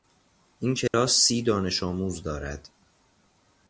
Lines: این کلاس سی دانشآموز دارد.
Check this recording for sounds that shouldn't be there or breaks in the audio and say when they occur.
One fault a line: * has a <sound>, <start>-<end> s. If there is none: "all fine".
* has a dropout, 0.9-0.9 s